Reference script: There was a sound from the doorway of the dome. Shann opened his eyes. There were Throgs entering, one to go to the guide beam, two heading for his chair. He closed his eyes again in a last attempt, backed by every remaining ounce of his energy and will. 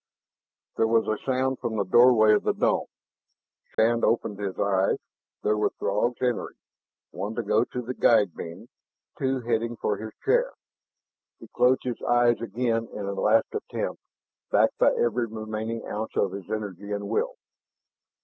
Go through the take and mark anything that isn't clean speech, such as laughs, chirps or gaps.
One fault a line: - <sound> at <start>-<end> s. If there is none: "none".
- dropout at 3.7-3.8 s